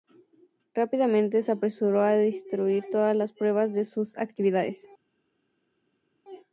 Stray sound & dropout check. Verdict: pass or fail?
pass